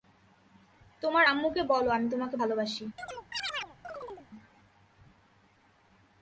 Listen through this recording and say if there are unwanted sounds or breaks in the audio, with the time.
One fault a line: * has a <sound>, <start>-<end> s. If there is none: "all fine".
* has a chirp, 3.0-4.3 s